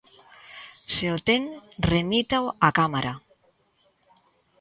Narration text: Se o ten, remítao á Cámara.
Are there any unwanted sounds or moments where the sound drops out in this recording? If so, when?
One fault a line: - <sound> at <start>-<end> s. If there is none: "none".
none